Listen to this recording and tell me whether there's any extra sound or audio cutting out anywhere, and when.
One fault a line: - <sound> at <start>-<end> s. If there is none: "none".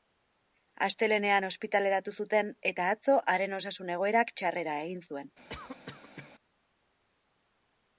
- cough at 5.5-6.3 s